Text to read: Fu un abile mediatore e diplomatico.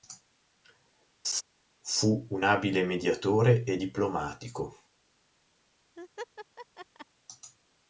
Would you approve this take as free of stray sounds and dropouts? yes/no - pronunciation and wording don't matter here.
no